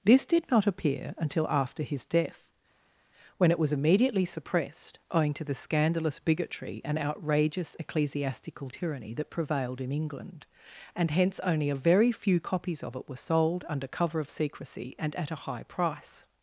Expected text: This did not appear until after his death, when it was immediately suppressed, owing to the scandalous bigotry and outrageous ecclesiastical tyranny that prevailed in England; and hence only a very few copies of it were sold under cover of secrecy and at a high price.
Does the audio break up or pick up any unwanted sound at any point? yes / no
no